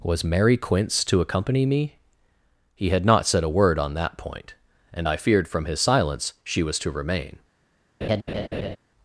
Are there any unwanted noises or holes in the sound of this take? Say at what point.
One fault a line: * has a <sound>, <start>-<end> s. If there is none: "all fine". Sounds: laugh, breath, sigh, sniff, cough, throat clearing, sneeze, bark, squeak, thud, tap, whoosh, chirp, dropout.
* has a laugh, 8.0-8.8 s